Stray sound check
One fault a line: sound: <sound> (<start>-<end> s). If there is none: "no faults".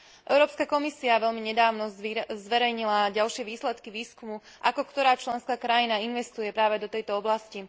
no faults